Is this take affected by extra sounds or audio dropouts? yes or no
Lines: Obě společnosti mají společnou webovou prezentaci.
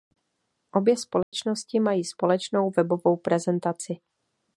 yes